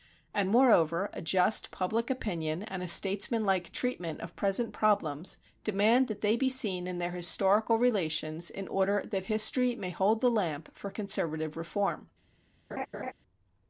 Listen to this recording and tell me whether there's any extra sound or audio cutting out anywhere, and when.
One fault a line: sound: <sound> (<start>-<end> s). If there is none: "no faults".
sound: laugh (12.7-13.1 s)